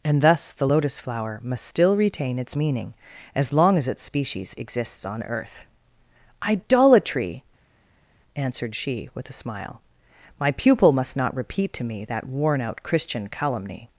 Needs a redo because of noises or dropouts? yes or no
no